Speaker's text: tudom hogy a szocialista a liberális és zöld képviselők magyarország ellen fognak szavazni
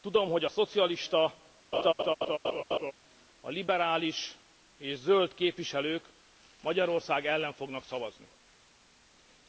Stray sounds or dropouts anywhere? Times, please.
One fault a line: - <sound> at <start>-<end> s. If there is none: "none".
- laugh at 1.7-2.9 s